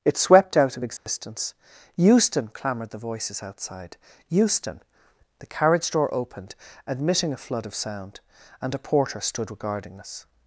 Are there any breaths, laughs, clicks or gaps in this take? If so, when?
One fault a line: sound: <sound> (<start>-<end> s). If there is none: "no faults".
sound: dropout (1.0-1.1 s)